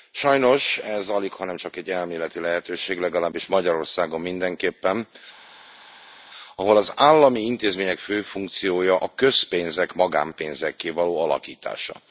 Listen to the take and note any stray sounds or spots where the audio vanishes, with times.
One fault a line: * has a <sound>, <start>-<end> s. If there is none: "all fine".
all fine